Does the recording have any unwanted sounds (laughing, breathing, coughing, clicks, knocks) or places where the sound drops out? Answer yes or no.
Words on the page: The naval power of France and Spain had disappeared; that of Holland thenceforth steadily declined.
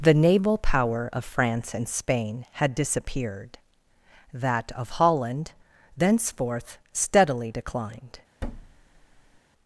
yes